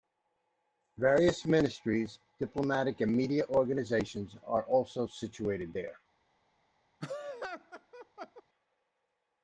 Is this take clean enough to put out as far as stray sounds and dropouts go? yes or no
no